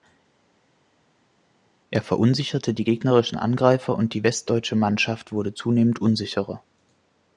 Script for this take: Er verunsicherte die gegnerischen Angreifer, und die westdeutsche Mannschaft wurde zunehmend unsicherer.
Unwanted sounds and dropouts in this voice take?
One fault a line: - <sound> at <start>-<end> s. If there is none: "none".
none